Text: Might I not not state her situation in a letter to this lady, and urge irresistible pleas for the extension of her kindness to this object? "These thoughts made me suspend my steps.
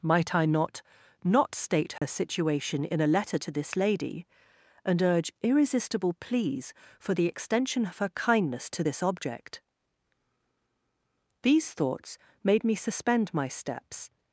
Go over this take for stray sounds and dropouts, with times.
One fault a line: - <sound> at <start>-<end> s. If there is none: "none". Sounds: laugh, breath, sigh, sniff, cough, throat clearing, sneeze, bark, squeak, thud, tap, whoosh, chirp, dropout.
- dropout at 2.0-2.0 s